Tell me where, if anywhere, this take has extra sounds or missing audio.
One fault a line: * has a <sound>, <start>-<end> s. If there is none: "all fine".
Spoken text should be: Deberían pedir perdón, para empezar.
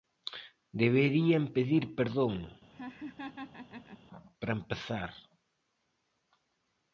* has a laugh, 2.7-4.0 s